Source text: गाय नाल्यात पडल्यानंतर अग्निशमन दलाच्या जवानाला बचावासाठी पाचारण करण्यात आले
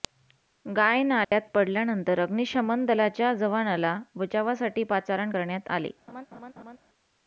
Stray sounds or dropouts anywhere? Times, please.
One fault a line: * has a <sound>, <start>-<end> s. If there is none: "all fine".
* has a dropout, 1.2-1.3 s
* has a laugh, 6.1-6.8 s